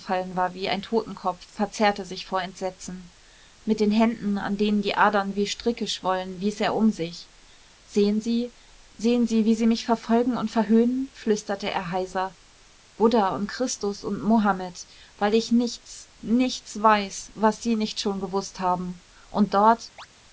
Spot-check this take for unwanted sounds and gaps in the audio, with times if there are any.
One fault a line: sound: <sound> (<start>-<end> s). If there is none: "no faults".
sound: chirp (20.0-20.1 s)